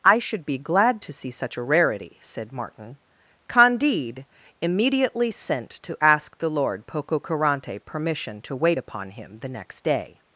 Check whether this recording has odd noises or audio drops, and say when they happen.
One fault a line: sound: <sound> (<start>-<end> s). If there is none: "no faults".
no faults